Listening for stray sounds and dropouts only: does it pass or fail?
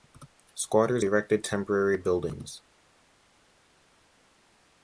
pass